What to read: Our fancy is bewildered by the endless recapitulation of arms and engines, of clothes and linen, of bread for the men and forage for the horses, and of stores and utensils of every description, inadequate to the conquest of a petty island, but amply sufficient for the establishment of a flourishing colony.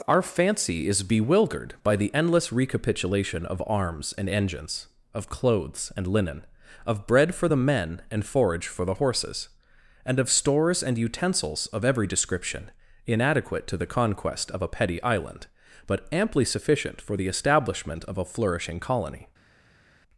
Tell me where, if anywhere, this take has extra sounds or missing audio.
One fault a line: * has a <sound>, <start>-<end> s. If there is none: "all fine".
all fine